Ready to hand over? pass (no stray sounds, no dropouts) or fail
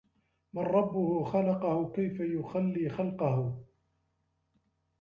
pass